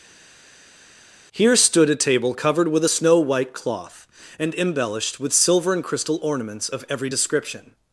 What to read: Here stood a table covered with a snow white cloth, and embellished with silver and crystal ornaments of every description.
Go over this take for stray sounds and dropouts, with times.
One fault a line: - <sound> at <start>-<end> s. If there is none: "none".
none